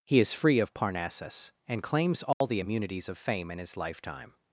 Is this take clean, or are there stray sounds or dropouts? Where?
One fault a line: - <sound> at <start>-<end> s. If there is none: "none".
- dropout at 2.3-2.4 s